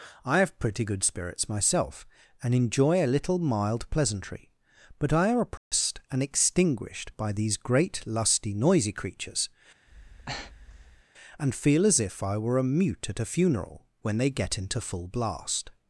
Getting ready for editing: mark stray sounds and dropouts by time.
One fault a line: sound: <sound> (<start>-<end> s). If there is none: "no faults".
sound: dropout (5.6-5.7 s)
sound: breath (9.9-11.0 s)